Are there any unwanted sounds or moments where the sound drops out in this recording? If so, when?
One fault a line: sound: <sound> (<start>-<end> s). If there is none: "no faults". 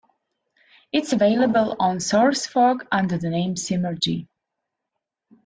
no faults